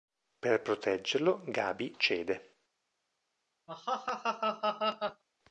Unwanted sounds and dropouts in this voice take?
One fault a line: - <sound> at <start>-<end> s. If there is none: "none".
- laugh at 3.7-5.2 s